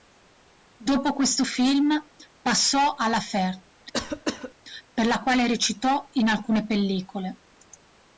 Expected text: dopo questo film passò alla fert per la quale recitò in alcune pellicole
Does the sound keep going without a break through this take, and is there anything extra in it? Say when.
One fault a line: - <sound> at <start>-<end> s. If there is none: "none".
- cough at 3.9-4.5 s